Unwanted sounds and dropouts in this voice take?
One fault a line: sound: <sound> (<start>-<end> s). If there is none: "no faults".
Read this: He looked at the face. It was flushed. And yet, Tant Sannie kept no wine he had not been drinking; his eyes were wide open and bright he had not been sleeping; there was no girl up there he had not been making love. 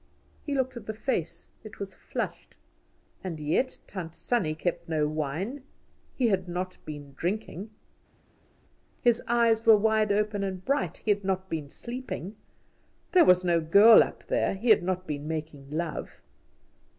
no faults